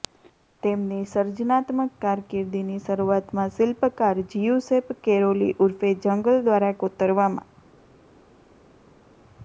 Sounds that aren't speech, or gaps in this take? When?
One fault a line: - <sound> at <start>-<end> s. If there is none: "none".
none